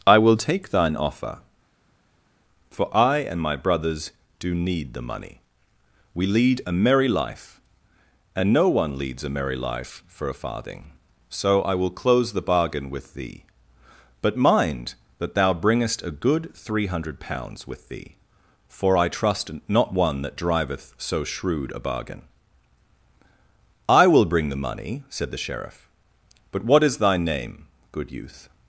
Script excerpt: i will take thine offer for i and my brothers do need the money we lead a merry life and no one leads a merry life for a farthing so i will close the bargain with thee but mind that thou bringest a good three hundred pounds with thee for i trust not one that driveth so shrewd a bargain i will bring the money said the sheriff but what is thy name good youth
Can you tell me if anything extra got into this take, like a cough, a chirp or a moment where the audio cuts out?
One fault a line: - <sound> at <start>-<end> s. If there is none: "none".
none